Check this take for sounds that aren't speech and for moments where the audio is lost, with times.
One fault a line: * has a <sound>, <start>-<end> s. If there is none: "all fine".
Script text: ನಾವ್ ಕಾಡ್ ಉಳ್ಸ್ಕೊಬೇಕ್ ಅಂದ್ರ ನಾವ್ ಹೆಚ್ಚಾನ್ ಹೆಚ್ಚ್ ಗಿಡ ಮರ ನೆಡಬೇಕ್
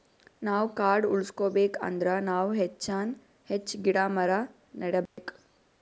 * has a dropout, 5.1-5.2 s